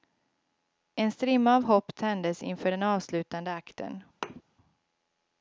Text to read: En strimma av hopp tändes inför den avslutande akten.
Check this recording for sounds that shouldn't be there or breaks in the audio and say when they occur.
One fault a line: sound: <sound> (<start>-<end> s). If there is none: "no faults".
sound: thud (4.2-4.4 s)